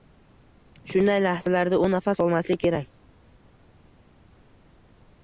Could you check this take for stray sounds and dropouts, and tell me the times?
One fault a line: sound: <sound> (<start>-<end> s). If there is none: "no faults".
no faults